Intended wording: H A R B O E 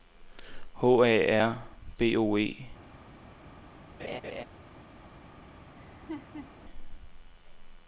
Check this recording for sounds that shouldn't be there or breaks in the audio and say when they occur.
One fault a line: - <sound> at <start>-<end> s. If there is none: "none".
- laugh at 4.0-4.4 s
- laugh at 5.8-6.5 s